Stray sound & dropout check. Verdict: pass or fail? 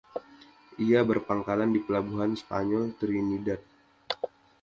pass